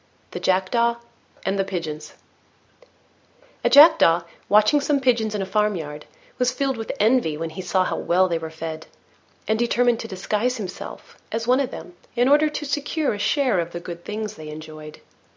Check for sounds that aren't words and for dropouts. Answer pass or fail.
pass